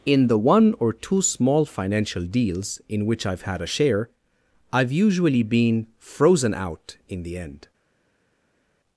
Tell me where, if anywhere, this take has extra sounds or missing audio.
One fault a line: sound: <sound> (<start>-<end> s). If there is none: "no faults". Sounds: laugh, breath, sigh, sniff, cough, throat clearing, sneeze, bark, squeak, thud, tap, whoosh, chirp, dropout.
no faults